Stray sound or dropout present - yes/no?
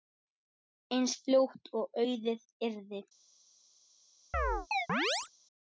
yes